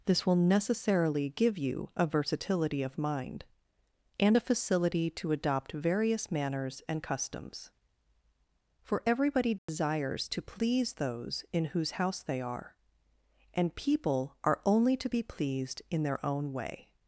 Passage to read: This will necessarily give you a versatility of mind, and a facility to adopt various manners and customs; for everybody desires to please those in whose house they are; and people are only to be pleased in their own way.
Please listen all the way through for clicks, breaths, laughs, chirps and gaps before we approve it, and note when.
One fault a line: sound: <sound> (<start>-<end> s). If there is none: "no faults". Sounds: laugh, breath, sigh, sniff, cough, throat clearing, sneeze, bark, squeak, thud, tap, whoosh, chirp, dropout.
sound: dropout (9.6-9.7 s)